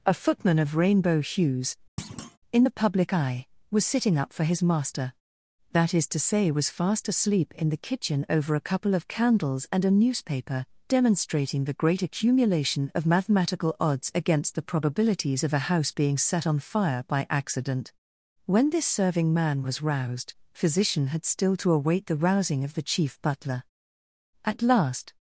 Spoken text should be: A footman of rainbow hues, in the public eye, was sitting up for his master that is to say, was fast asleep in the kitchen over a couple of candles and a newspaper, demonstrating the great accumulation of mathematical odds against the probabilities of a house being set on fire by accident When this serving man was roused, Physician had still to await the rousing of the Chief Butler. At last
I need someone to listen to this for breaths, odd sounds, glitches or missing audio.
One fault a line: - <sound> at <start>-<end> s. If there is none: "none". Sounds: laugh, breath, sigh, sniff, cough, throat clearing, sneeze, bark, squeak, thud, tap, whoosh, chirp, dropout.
- thud at 2.0-2.4 s